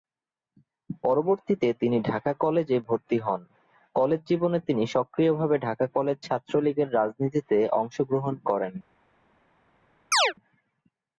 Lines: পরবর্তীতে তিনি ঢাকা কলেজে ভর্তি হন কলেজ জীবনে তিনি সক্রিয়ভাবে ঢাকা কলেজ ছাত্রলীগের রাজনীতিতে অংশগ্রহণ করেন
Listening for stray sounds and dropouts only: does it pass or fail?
fail